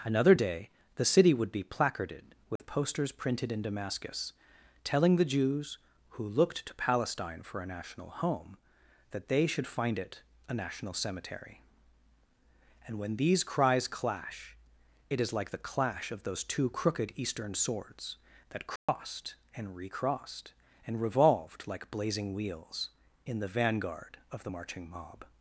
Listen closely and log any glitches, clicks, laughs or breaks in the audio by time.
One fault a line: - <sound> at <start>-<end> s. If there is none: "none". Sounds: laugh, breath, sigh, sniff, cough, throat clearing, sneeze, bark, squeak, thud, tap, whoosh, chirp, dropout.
- dropout at 2.6-2.6 s
- dropout at 18.8-18.9 s